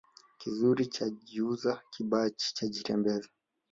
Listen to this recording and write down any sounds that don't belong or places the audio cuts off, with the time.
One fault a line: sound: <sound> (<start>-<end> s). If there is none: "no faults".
no faults